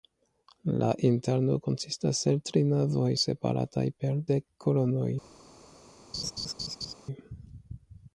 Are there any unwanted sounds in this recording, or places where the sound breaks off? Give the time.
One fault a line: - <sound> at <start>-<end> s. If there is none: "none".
- laugh at 6.1-6.9 s